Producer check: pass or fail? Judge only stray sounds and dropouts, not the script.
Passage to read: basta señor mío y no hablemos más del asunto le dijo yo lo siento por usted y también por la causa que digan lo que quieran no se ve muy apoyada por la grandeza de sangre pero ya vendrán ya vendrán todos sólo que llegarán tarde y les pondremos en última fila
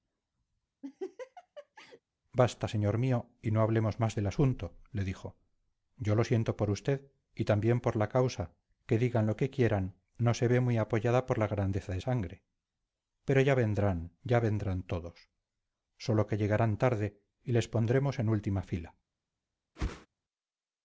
fail